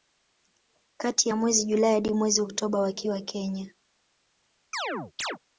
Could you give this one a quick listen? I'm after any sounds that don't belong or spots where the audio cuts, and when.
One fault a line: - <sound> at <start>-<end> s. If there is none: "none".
- chirp at 4.7-5.4 s